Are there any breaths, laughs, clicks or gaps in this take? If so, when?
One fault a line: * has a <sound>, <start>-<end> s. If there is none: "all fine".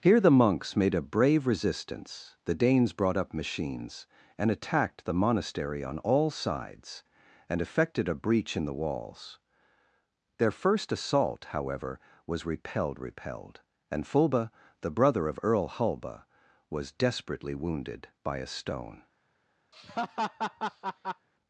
* has a laugh, 19.7-21.3 s